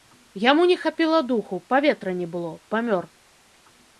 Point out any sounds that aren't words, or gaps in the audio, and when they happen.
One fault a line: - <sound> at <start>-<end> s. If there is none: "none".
none